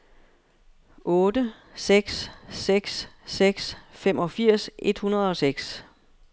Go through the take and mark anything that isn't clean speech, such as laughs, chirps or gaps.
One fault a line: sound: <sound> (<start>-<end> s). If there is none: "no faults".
no faults